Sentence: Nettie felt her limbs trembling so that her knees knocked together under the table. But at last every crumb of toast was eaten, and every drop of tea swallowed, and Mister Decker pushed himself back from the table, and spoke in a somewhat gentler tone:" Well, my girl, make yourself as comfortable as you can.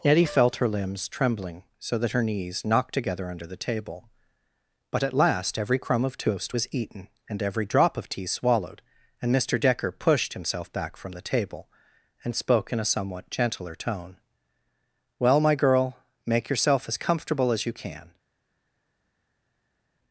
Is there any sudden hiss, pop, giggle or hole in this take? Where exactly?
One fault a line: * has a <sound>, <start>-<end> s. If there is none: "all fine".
all fine